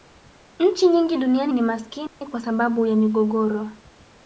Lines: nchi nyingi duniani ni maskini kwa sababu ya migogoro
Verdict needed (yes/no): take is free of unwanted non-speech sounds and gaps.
no